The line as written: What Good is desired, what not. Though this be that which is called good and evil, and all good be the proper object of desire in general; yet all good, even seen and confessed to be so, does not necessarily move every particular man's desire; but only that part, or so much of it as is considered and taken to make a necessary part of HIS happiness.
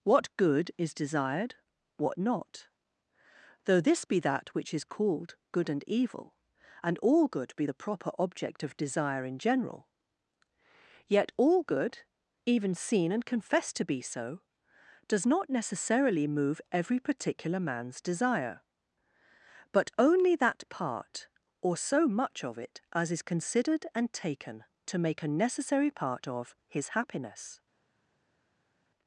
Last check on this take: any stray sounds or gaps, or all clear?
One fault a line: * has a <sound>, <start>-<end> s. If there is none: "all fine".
all fine